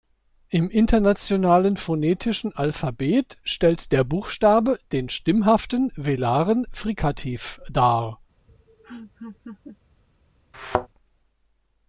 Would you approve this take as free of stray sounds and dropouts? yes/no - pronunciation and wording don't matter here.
no